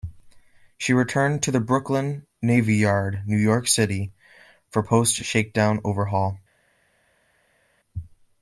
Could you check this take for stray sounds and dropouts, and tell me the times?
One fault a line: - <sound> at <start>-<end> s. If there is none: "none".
none